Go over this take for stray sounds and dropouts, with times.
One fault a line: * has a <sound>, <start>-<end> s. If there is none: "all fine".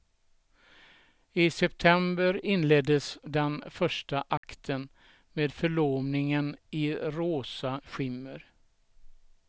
* has a dropout, 4.4-4.4 s